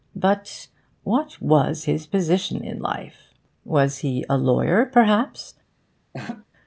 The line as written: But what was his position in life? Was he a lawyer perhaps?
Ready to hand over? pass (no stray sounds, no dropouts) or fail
fail